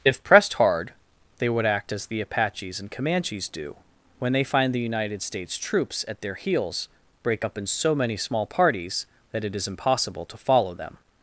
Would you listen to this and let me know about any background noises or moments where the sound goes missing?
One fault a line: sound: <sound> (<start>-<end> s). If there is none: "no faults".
no faults